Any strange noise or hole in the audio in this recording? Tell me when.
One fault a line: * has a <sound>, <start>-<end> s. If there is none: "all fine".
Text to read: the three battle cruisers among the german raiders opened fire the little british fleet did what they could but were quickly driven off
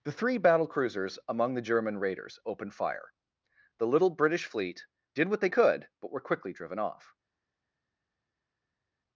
all fine